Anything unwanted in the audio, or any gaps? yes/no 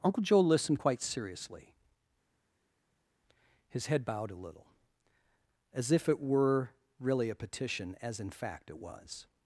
no